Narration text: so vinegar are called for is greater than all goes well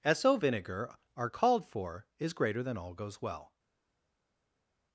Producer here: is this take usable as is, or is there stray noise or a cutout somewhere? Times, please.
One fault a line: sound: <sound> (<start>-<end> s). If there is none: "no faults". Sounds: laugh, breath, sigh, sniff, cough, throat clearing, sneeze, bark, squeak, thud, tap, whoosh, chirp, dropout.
no faults